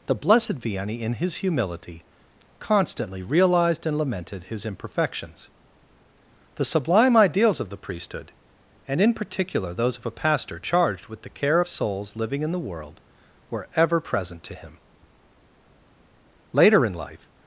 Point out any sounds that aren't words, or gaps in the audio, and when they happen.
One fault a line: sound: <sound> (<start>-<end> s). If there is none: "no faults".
no faults